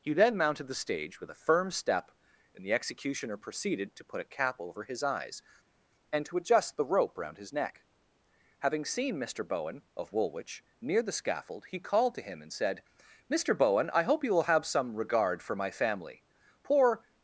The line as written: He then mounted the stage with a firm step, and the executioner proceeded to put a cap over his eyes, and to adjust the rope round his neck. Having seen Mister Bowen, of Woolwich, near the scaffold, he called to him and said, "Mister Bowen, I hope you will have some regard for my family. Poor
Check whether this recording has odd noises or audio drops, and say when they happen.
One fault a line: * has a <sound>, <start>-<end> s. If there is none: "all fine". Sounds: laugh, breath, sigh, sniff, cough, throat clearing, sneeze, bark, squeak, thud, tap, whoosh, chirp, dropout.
all fine